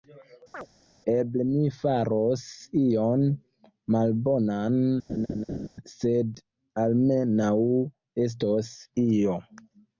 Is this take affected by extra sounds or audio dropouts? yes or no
yes